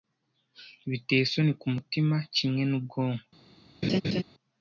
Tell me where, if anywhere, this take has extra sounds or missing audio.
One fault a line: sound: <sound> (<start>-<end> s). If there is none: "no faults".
sound: laugh (3.8-4.2 s)